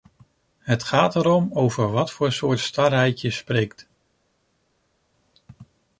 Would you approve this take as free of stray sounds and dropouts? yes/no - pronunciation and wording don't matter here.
yes